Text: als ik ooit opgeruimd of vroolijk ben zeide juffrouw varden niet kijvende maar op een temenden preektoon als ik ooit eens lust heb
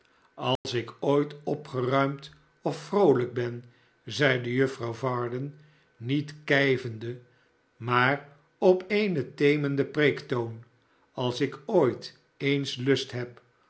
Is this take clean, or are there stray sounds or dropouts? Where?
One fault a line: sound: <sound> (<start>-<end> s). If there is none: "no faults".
sound: dropout (0.6-0.6 s)